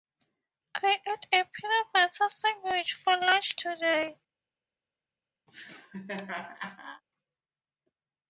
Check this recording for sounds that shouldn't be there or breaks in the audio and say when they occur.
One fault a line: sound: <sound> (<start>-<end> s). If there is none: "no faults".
sound: laugh (5.5-7.0 s)